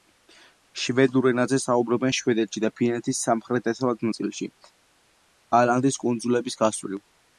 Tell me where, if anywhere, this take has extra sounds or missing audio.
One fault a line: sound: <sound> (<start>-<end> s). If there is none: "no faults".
no faults